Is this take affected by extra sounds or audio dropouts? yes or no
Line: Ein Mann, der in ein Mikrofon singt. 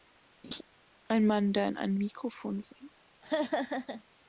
yes